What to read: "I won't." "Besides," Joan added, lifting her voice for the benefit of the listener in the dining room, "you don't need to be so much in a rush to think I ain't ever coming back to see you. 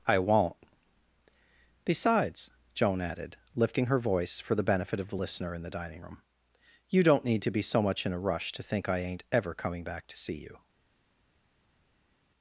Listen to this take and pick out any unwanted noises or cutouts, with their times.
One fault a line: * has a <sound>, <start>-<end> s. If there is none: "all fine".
all fine